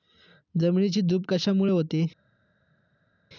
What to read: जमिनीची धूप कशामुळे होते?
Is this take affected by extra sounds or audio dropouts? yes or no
no